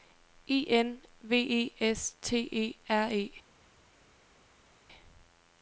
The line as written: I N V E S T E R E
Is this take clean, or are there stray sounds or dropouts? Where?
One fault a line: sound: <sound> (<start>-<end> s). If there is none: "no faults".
no faults